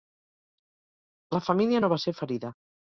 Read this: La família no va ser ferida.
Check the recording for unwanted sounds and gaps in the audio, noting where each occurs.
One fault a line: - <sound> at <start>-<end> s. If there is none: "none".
none